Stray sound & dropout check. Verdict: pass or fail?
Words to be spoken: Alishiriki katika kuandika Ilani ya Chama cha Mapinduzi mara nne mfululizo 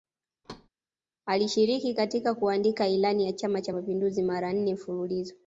fail